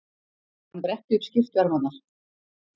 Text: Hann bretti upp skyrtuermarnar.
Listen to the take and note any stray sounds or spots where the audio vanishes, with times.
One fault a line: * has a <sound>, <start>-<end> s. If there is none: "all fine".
all fine